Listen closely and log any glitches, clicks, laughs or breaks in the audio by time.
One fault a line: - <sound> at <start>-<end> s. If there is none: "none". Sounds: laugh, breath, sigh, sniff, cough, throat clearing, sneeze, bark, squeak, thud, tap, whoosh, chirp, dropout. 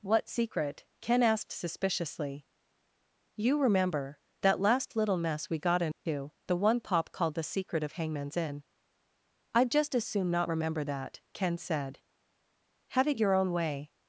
- dropout at 5.9-6.1 s